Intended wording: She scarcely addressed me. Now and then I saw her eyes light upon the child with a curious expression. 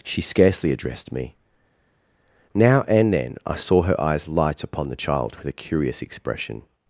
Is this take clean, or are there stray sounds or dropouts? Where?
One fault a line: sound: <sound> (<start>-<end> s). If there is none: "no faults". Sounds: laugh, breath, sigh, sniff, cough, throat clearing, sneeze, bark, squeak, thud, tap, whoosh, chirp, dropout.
no faults